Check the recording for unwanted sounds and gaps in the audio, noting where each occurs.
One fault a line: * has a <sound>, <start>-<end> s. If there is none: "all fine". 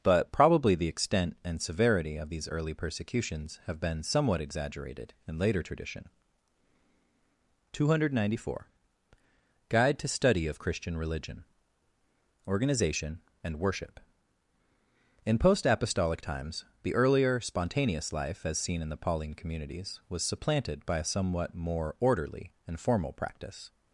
all fine